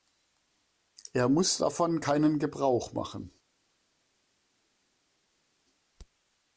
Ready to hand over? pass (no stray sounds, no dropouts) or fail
pass